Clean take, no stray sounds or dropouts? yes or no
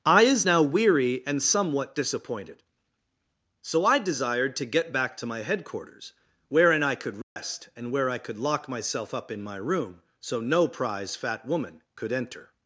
no